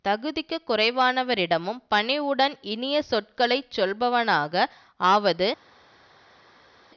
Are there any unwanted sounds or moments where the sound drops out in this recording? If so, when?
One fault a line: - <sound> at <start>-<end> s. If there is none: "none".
none